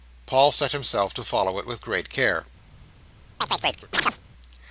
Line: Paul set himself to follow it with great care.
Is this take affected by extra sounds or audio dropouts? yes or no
yes